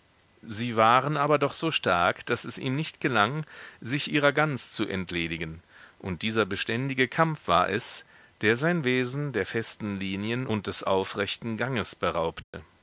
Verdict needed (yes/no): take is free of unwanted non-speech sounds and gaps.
no